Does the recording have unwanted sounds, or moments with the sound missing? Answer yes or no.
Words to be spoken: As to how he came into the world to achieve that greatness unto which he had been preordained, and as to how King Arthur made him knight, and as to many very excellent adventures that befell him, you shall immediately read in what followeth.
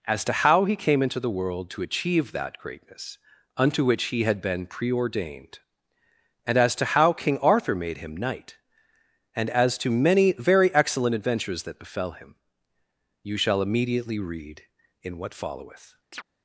yes